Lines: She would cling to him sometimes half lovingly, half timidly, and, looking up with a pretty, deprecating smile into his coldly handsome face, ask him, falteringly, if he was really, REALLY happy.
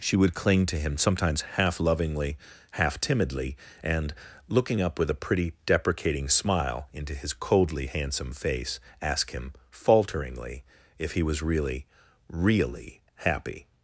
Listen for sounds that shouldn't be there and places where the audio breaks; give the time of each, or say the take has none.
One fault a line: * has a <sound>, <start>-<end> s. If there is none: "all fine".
all fine